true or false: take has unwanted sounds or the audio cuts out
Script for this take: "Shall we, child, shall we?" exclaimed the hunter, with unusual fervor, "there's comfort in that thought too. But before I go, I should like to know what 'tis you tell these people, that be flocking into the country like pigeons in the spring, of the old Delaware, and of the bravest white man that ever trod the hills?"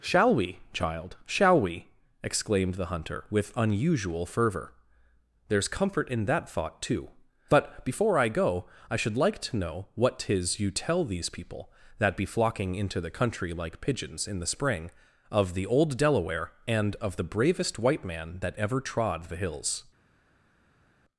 false